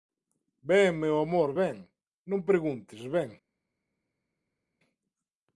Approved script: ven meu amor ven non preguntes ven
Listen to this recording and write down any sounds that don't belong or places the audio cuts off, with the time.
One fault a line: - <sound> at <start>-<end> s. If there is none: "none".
none